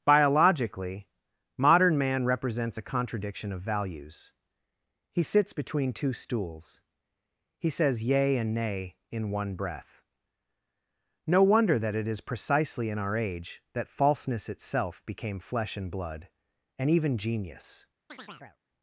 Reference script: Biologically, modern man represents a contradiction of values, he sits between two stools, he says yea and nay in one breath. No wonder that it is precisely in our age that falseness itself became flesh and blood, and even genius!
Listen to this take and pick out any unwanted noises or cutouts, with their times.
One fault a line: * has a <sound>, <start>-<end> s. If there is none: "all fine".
* has a chirp, 18.1-18.6 s